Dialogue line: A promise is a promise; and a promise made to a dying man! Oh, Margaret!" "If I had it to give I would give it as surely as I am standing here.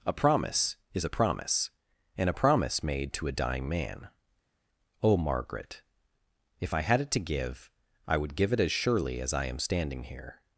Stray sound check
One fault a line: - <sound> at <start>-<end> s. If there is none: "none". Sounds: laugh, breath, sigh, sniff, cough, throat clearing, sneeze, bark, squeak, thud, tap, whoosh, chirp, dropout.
none